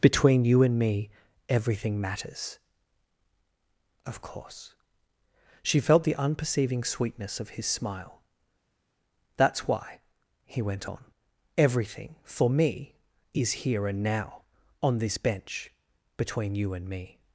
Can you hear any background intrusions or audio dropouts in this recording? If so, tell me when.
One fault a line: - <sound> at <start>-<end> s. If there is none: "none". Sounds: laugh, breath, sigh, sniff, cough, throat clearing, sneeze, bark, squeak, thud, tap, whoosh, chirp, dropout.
none